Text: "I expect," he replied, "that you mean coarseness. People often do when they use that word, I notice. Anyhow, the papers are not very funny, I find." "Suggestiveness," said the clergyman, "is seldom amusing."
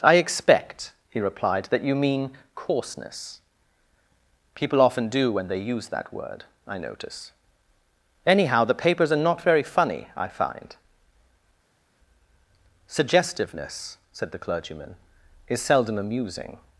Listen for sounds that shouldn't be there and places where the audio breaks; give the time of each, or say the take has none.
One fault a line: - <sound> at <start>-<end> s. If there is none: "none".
none